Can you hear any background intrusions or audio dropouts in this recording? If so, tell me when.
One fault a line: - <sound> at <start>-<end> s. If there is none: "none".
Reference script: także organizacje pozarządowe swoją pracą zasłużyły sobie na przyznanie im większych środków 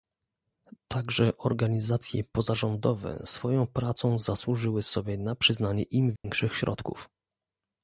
- dropout at 6.2-6.2 s